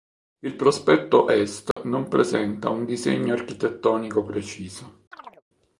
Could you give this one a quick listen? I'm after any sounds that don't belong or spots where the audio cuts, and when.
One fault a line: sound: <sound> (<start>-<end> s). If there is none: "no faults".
sound: dropout (1.7-1.8 s)
sound: chirp (5.1-5.4 s)